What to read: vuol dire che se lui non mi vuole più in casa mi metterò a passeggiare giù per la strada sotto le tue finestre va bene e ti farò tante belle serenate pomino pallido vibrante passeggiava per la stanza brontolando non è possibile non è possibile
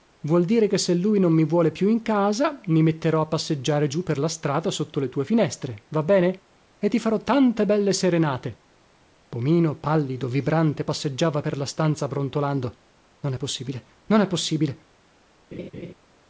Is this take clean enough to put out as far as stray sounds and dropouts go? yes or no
no